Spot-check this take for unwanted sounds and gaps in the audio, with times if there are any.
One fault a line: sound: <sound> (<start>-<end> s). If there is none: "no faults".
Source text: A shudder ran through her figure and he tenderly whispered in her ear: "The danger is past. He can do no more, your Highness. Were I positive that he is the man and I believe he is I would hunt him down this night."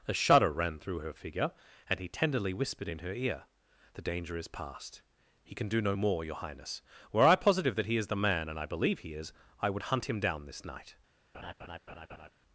sound: laugh (11.3-12.3 s)